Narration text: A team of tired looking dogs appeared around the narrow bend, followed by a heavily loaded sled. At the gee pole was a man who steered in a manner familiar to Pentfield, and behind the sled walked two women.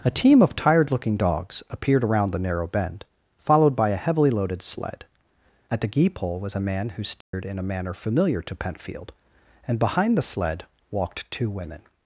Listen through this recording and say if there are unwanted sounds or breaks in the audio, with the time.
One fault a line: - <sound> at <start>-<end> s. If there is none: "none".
- dropout at 7.2-7.3 s